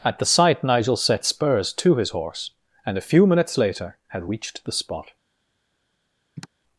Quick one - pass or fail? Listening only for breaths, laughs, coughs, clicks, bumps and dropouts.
fail